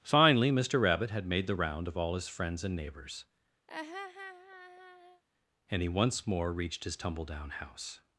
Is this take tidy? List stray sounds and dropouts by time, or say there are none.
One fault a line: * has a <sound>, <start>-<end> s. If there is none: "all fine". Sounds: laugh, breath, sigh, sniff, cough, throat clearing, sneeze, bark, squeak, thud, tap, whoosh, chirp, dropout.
* has a laugh, 3.7-5.2 s